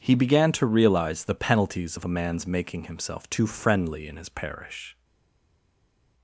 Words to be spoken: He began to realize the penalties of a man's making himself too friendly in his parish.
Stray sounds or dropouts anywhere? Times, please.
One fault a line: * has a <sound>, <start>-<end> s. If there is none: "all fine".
all fine